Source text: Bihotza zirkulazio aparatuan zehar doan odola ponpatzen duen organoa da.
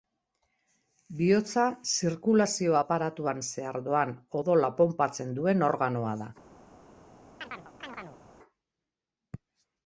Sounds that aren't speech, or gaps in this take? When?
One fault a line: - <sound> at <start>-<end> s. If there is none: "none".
- chirp at 7.4-8.2 s